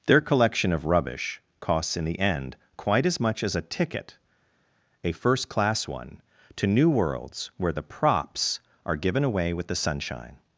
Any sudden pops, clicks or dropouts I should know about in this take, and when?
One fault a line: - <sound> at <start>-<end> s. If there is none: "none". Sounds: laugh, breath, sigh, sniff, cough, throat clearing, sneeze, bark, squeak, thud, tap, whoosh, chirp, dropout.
none